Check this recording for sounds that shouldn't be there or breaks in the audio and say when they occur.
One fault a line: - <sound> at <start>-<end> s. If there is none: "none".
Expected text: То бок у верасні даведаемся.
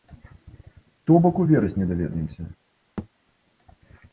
- thud at 3.0-3.1 s